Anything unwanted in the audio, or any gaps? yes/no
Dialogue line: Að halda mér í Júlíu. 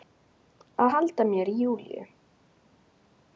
no